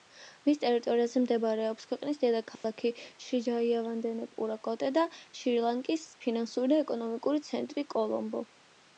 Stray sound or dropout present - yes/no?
yes